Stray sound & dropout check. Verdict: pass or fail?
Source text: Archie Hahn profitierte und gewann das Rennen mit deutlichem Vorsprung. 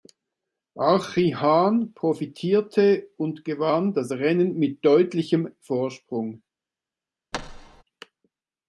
fail